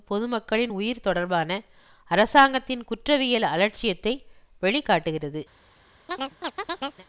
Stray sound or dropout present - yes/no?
yes